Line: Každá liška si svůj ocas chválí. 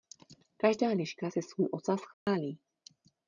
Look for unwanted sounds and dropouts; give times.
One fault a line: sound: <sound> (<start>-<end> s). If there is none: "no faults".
sound: dropout (2.1-2.3 s)